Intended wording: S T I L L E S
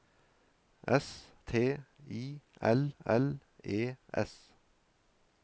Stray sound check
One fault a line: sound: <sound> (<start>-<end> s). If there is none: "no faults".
no faults